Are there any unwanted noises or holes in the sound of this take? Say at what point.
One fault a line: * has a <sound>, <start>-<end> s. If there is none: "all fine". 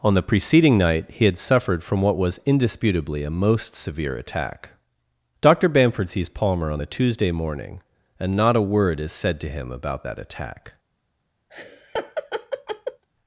* has a laugh, 11.5-13.0 s